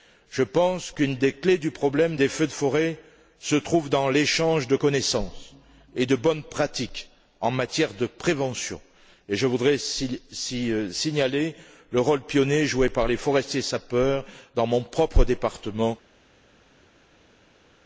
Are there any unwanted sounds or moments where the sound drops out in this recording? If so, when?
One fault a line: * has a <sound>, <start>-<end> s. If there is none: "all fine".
all fine